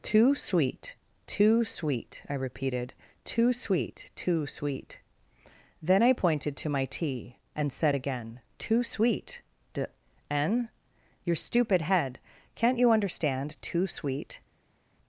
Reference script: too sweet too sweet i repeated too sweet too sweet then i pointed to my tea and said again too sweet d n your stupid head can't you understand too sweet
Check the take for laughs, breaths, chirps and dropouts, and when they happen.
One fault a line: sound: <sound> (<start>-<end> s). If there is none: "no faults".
no faults